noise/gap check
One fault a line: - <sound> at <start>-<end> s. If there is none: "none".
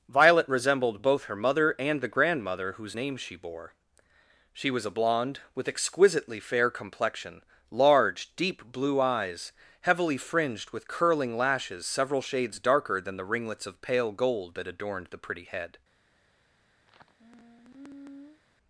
- sigh at 16.9-18.4 s